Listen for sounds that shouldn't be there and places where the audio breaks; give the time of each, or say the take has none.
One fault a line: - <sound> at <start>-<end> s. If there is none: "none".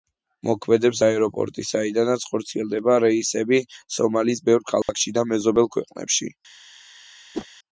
- dropout at 4.8-4.9 s
- whoosh at 7.3-7.5 s